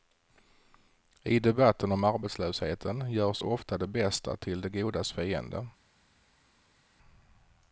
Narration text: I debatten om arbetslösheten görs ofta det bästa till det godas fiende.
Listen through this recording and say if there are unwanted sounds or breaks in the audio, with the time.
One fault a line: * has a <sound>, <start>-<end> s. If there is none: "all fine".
all fine